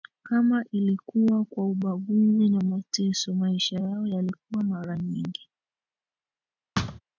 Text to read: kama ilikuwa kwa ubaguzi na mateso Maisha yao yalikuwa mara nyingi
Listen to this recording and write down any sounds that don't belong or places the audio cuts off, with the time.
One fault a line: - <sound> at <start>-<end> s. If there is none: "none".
- thud at 6.7-7.0 s